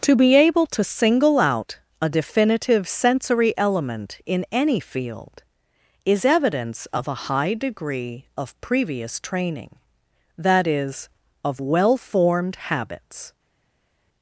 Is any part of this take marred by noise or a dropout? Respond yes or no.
no